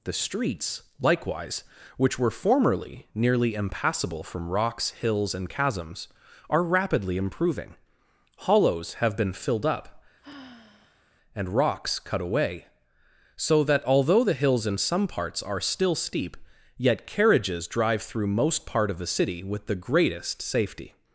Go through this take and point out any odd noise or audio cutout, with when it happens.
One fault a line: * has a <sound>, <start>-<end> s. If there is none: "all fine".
* has a sigh, 10.2-11.0 s